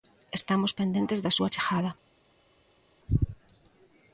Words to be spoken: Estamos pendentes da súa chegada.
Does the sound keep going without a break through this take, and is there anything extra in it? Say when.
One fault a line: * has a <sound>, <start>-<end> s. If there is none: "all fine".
all fine